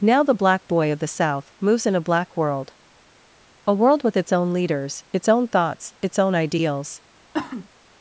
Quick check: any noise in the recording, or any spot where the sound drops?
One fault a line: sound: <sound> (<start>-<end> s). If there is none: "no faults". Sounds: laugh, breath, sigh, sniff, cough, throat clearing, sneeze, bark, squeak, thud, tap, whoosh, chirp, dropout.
sound: cough (7.3-7.7 s)